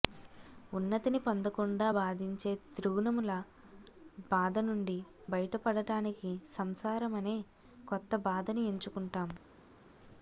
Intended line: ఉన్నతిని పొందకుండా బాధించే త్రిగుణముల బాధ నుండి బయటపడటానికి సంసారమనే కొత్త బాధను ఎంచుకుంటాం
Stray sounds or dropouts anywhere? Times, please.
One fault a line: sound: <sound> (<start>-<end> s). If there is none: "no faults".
no faults